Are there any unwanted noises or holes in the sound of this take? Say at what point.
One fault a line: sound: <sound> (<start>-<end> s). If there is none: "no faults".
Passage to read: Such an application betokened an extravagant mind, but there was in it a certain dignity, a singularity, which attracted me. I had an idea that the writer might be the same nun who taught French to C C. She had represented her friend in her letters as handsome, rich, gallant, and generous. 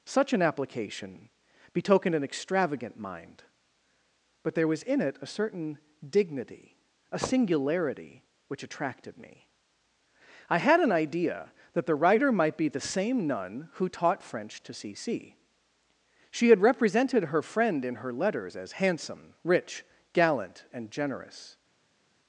no faults